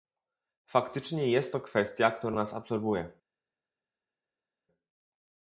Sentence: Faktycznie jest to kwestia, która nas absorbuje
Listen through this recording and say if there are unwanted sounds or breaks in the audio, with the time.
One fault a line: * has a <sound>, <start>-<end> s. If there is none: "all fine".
all fine